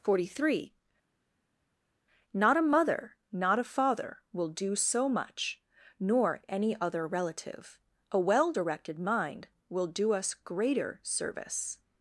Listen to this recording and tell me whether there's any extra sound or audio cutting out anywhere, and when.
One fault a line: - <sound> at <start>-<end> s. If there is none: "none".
none